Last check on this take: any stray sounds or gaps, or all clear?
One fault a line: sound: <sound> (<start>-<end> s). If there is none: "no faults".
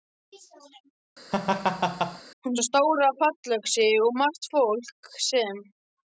sound: laugh (1.3-2.2 s)